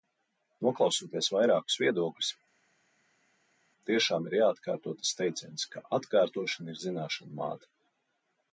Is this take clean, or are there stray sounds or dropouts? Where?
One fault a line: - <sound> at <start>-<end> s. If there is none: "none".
none